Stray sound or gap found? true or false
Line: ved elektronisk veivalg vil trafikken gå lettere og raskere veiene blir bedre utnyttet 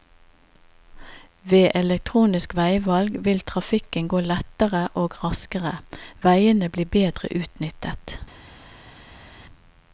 false